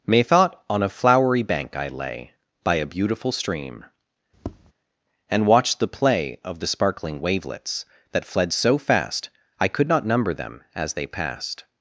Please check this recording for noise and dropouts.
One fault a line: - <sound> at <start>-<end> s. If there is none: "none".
- tap at 4.3-4.7 s